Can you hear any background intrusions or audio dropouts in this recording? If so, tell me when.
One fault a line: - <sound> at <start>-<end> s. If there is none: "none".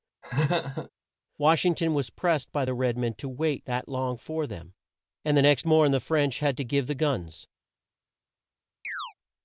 - laugh at 0.2-0.9 s
- chirp at 8.8-9.1 s